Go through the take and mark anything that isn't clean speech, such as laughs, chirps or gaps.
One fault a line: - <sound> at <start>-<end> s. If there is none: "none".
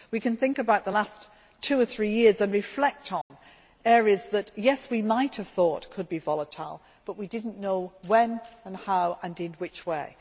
- dropout at 3.2-3.3 s